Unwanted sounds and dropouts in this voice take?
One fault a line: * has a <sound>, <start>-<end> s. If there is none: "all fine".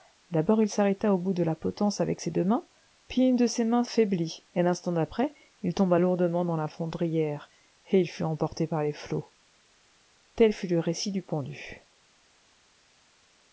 all fine